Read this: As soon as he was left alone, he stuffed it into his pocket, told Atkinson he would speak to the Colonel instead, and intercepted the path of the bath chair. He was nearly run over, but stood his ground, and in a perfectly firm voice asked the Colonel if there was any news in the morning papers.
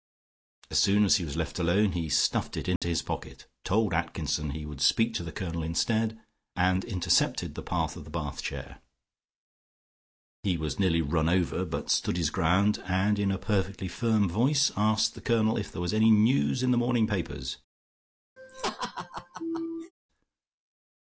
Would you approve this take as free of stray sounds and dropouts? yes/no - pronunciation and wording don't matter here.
no